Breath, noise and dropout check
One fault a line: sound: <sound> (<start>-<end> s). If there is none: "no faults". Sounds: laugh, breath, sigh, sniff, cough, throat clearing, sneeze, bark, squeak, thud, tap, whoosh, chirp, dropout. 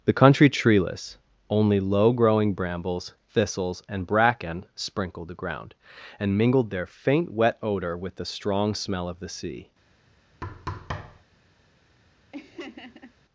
sound: thud (10.4-11.2 s)
sound: laugh (12.3-13.1 s)